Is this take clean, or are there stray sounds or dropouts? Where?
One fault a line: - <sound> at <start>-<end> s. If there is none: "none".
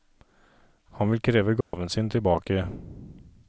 - dropout at 1.6-1.7 s